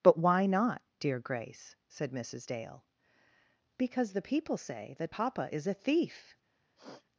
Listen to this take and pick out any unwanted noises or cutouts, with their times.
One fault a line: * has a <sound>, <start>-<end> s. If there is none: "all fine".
* has a sniff, 6.8-7.1 s